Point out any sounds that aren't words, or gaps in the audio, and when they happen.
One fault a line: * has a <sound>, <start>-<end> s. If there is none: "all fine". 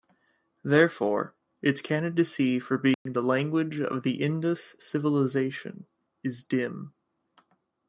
* has a dropout, 2.9-3.1 s